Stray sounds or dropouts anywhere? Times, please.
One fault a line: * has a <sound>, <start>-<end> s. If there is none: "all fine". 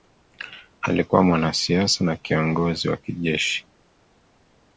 all fine